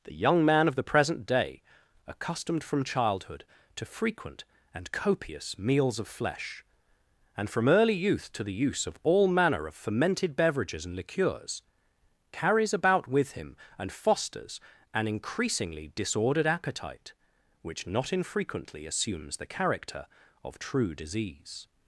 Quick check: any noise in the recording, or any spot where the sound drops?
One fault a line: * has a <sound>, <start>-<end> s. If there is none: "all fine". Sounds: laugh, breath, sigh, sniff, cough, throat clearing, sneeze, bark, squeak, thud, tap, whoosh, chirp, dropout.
all fine